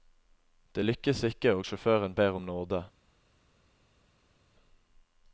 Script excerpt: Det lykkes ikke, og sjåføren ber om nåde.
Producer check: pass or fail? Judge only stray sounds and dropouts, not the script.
pass